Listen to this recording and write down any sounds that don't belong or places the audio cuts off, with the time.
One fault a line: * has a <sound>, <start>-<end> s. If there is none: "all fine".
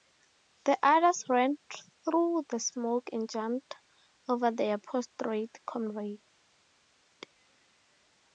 all fine